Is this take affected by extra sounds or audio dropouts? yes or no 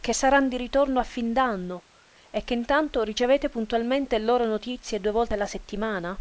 no